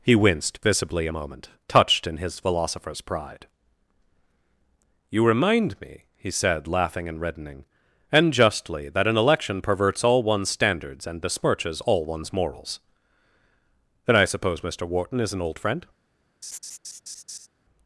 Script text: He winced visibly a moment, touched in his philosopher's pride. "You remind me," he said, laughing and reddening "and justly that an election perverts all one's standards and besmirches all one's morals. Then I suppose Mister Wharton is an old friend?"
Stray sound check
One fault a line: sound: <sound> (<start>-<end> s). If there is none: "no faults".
sound: laugh (16.4-17.5 s)